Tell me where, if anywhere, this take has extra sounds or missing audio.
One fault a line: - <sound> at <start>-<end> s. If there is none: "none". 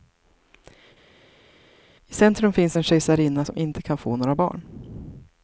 none